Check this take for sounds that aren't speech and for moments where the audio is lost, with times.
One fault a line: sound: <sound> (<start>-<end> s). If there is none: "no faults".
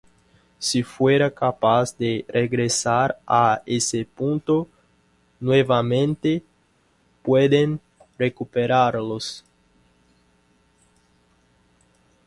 no faults